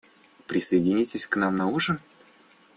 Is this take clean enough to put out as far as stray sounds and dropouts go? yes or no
yes